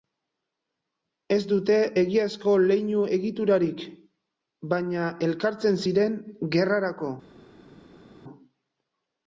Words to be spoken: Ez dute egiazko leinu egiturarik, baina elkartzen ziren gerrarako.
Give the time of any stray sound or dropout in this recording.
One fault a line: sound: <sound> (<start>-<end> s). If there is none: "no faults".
no faults